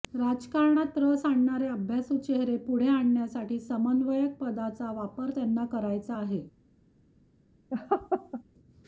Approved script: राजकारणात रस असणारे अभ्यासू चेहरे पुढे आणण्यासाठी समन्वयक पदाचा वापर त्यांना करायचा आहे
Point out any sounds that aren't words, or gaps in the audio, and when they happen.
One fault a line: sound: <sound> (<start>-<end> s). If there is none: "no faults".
sound: laugh (7.7-8.4 s)